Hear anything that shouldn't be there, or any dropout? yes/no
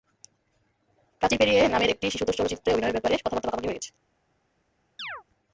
yes